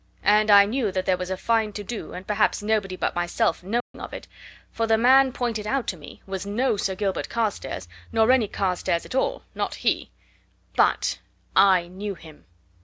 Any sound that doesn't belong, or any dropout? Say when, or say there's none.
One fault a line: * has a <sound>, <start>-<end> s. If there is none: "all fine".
* has a dropout, 3.8-3.9 s